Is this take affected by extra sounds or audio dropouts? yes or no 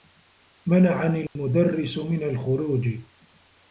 yes